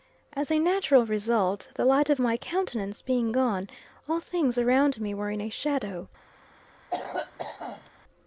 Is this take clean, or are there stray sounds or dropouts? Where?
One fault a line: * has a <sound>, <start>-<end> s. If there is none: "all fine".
* has a cough, 6.9-7.9 s